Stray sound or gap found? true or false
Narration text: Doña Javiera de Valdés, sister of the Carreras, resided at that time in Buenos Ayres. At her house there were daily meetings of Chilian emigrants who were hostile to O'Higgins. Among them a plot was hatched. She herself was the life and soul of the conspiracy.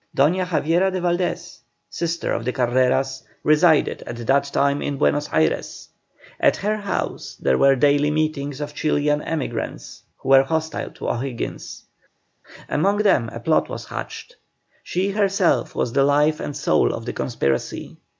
false